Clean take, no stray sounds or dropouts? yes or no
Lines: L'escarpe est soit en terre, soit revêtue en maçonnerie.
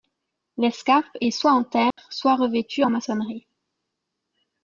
no